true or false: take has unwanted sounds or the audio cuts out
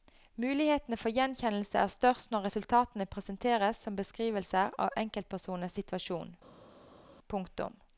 false